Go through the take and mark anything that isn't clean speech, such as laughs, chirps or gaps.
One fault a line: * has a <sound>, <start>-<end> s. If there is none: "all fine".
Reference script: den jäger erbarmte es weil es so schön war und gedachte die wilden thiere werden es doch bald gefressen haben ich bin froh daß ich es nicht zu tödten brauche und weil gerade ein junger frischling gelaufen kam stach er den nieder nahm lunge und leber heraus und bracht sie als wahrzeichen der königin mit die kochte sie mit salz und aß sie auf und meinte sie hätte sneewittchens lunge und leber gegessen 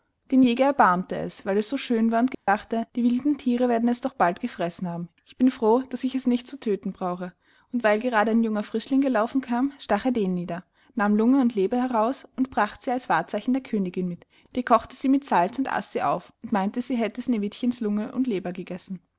* has a dropout, 2.3-2.5 s